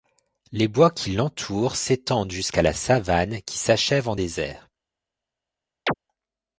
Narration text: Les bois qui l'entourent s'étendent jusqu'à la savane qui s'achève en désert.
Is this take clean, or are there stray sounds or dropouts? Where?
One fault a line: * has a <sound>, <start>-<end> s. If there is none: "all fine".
* has a chirp, 5.9-5.9 s